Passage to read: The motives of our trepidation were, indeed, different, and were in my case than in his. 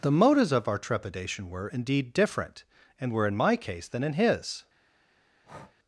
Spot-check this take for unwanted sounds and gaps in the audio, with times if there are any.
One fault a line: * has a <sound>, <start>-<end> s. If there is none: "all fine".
* has a breath, 5.4-5.8 s